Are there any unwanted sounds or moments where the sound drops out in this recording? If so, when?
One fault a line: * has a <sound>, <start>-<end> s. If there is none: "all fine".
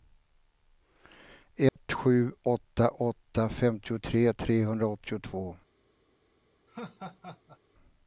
* has a dropout, 1.7-1.8 s
* has a laugh, 6.7-7.6 s